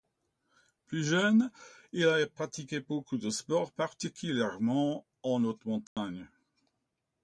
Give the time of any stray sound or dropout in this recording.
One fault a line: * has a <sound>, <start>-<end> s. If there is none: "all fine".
* has a dropout, 5.9-6.0 s